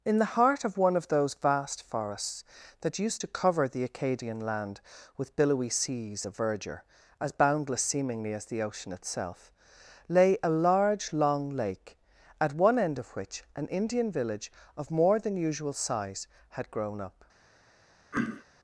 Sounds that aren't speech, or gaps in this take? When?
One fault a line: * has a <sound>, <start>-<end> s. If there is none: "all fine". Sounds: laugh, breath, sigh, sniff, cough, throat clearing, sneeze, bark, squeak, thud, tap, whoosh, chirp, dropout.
* has a throat clearing, 18.1-18.5 s